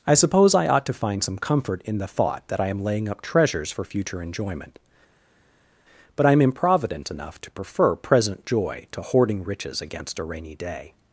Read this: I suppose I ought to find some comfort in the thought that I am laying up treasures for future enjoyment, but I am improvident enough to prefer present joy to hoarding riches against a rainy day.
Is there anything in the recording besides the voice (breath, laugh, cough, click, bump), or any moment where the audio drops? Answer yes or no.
no